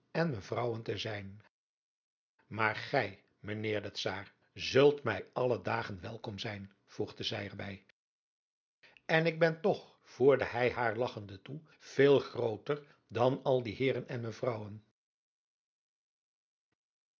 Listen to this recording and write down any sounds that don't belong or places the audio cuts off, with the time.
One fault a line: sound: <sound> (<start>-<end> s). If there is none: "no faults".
no faults